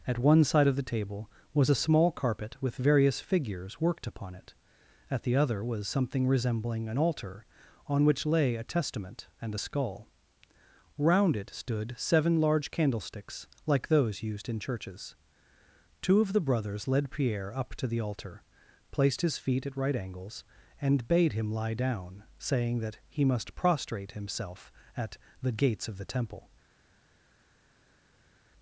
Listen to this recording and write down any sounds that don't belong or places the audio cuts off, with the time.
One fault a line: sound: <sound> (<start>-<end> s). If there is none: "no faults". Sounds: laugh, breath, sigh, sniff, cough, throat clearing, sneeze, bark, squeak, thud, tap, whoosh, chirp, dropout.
no faults